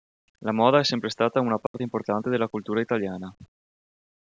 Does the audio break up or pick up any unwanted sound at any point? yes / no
yes